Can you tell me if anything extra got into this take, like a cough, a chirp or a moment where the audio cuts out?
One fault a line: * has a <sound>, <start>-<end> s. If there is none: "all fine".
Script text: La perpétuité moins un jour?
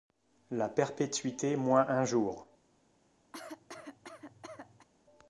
* has a cough, 3.3-4.9 s